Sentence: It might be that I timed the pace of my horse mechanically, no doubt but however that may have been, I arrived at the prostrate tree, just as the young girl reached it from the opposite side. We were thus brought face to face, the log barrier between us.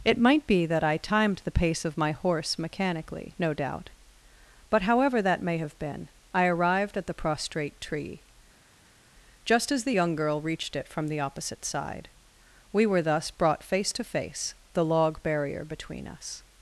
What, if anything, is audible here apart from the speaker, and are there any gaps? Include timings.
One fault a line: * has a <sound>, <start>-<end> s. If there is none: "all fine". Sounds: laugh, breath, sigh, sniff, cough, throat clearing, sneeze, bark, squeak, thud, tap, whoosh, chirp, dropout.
all fine